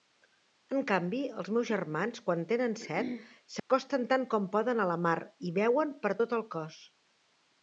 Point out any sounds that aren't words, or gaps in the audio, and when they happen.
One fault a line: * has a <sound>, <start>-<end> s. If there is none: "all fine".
* has a dropout, 3.6-3.7 s